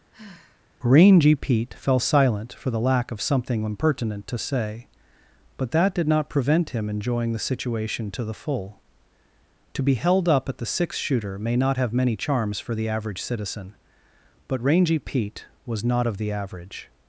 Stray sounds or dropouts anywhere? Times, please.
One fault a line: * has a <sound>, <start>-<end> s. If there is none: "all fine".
* has a sigh, 0.1-0.7 s